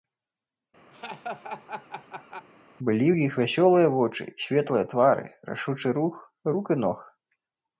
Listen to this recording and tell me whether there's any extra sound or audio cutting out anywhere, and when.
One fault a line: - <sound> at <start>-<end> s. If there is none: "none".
- laugh at 0.9-2.5 s